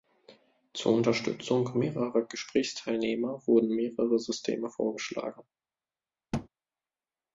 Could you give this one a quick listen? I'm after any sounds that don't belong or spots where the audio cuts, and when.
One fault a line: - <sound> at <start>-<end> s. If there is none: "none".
- thud at 6.3-6.5 s